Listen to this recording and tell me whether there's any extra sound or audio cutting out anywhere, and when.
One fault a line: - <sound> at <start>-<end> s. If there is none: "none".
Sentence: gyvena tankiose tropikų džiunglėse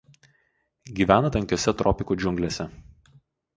none